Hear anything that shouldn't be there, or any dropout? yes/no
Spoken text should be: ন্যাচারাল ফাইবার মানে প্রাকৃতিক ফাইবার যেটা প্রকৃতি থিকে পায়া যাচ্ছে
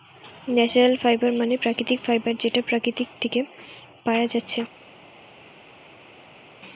no